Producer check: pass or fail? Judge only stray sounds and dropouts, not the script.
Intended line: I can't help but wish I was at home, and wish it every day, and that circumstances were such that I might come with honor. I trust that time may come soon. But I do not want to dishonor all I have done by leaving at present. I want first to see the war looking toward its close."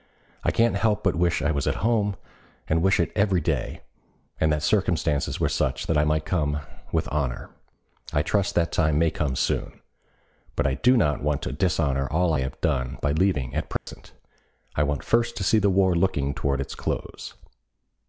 fail